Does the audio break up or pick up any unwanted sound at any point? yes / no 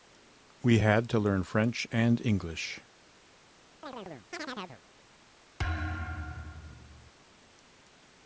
yes